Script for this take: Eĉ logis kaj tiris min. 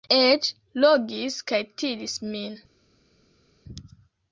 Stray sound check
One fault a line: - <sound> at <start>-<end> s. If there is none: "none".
none